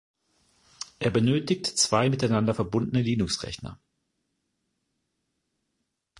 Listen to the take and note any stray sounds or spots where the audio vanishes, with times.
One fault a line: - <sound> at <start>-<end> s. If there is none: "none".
none